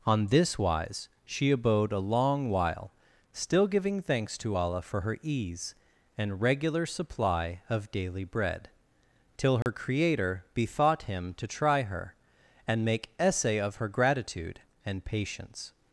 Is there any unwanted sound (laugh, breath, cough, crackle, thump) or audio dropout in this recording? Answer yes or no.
yes